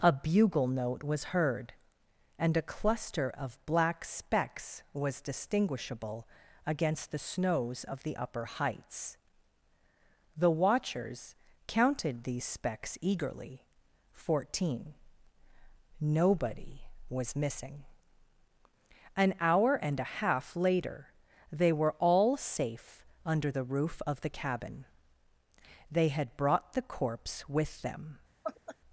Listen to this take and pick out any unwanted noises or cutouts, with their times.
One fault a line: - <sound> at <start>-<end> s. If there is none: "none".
- laugh at 28.4-28.8 s